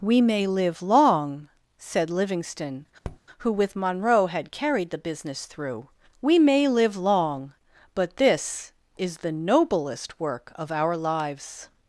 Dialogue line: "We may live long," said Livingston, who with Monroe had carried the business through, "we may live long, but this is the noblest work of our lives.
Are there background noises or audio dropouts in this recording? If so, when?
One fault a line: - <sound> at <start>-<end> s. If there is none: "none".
- tap at 3.0-3.2 s